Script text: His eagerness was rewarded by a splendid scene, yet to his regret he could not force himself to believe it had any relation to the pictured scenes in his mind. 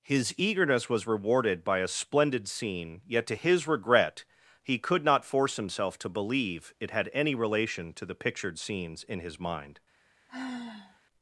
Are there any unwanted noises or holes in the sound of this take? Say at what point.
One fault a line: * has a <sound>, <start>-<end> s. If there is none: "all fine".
* has a sigh, 10.3-11.0 s